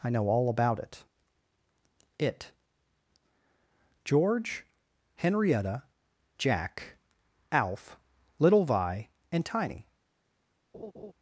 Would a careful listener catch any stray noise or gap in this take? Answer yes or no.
yes